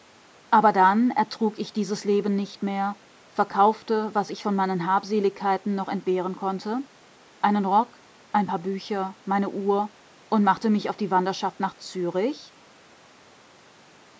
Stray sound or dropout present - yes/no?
no